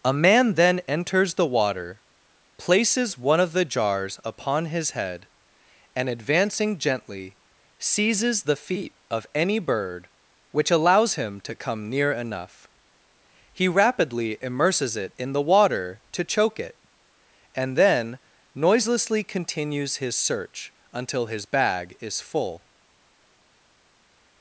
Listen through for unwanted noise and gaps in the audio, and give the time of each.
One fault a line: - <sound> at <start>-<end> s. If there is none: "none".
none